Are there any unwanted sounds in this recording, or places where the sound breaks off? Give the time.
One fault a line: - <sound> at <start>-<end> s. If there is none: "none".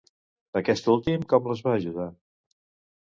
none